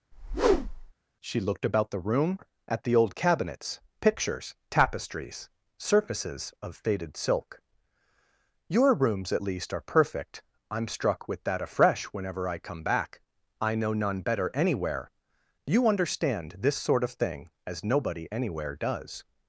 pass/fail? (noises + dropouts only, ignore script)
fail